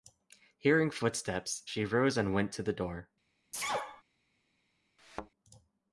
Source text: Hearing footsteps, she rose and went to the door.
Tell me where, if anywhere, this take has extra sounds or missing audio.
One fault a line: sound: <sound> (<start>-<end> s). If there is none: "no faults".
sound: sneeze (3.5-4.0 s)
sound: thud (5.0-5.3 s)